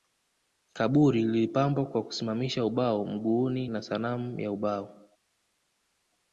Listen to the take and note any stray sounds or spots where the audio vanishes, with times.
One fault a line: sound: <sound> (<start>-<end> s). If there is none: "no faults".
no faults